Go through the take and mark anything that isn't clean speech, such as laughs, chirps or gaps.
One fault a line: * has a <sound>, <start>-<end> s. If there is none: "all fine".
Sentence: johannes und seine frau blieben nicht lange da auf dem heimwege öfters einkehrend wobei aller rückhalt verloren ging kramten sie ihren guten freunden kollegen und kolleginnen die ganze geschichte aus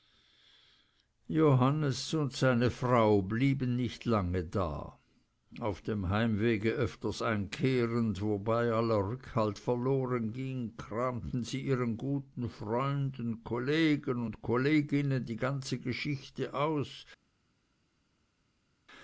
all fine